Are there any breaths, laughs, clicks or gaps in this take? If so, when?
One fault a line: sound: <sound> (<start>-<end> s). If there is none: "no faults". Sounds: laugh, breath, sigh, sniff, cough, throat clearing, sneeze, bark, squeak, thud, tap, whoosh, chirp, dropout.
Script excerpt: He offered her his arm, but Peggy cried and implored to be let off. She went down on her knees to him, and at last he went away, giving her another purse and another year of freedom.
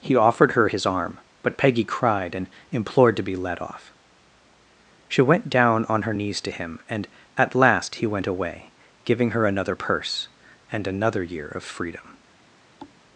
sound: thud (12.8-13.0 s)